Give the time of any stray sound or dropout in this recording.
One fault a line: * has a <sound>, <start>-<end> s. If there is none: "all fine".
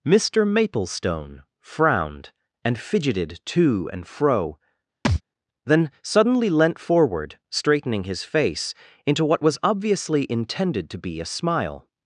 * has a thud, 5.0-5.2 s